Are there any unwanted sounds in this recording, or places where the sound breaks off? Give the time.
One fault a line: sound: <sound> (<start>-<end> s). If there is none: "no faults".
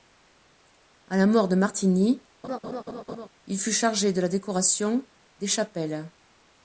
sound: laugh (2.4-3.3 s)